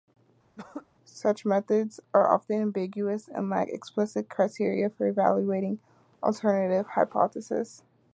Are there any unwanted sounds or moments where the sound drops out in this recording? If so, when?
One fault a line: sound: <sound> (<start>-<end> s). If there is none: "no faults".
sound: throat clearing (0.6-0.9 s)